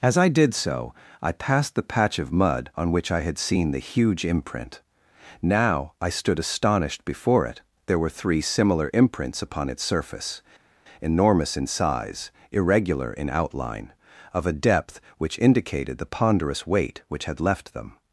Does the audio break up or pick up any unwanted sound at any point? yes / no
no